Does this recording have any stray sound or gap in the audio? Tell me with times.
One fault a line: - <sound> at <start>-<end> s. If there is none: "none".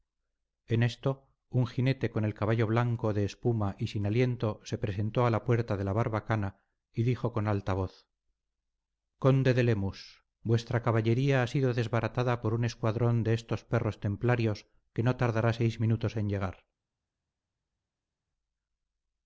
none